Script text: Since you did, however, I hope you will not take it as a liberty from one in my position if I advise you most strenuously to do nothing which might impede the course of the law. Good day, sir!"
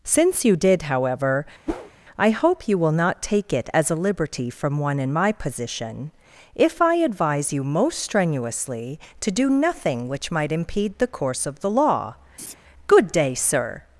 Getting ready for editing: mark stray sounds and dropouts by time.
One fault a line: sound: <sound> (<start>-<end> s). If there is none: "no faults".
sound: whoosh (1.7-1.9 s)
sound: laugh (12.4-12.5 s)